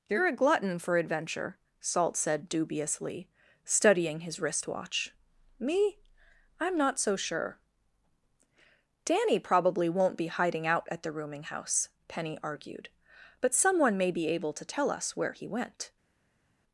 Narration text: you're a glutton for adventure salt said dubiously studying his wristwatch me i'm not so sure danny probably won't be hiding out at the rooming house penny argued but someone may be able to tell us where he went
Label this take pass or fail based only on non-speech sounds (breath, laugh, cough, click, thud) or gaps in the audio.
pass